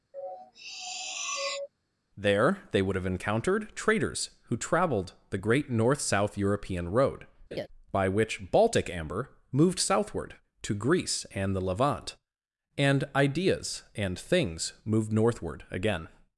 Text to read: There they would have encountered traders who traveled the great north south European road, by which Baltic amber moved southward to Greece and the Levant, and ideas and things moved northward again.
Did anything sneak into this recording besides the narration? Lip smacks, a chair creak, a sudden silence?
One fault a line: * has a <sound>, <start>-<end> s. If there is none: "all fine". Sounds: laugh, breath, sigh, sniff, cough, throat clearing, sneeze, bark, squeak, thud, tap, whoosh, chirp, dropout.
* has a sniff, 0.1-1.7 s
* has a laugh, 7.5-7.7 s